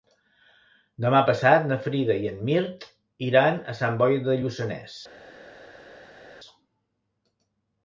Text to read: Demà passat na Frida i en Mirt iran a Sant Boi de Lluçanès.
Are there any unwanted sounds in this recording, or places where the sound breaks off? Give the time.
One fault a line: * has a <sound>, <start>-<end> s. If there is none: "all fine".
all fine